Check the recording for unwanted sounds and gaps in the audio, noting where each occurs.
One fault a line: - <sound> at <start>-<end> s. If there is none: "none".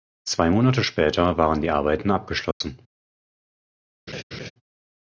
- dropout at 2.5-2.6 s
- laugh at 4.1-4.5 s